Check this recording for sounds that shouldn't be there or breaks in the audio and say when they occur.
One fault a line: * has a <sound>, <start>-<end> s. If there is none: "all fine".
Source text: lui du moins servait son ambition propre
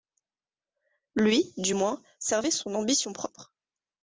all fine